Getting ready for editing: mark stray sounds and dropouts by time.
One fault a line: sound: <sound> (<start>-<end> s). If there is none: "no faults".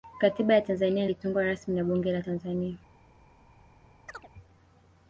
sound: chirp (4.1-4.3 s)